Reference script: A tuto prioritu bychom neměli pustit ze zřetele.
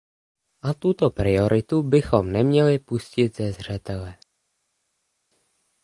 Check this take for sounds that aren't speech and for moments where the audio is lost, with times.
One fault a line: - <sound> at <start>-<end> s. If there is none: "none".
none